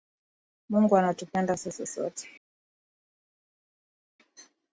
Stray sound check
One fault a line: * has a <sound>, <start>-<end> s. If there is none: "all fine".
all fine